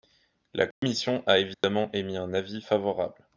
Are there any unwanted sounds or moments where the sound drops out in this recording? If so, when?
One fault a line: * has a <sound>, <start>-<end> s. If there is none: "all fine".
* has a dropout, 0.7-0.8 s
* has a dropout, 1.5-1.6 s